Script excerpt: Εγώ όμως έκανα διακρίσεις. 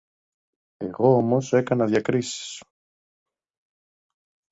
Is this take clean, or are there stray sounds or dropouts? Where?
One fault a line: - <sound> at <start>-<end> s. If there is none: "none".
none